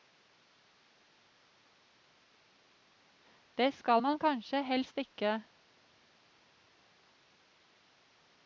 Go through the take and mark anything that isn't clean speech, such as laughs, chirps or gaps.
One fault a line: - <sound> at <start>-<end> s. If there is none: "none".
none